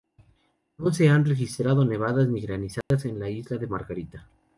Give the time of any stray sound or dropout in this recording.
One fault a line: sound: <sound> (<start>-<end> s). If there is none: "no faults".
sound: dropout (2.8-2.9 s)